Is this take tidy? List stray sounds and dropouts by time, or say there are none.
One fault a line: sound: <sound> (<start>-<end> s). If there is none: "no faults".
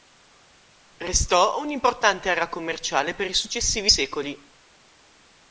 no faults